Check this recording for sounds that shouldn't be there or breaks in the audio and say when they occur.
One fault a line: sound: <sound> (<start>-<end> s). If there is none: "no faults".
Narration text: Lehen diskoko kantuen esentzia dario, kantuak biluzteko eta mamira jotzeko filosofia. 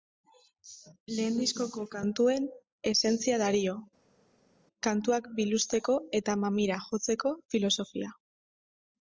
no faults